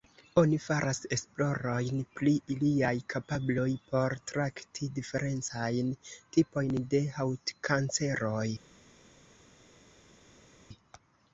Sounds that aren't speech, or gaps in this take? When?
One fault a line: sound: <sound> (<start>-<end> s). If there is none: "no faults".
no faults